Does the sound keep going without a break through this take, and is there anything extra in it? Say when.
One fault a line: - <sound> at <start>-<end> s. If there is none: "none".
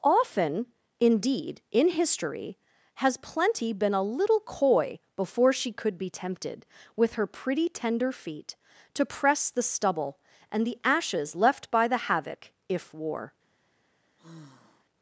- sigh at 14.2-14.8 s